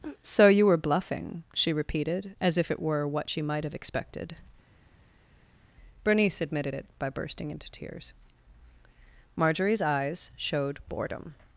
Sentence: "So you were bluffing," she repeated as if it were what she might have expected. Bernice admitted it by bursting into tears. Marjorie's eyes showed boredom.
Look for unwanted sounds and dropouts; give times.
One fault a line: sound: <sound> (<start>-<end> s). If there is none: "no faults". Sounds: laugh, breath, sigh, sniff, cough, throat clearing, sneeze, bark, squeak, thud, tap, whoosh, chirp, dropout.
no faults